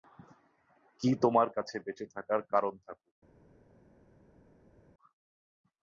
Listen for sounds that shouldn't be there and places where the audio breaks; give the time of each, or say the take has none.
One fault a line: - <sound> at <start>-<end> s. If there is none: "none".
none